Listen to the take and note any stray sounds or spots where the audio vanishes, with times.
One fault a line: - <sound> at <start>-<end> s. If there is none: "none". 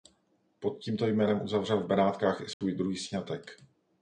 - dropout at 2.5-2.6 s